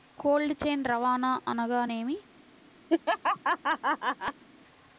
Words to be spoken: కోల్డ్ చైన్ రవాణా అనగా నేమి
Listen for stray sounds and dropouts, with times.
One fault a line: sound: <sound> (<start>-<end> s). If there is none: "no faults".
sound: laugh (2.9-4.4 s)